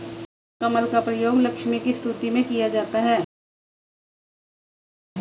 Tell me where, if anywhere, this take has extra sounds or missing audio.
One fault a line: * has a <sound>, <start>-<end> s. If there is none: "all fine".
all fine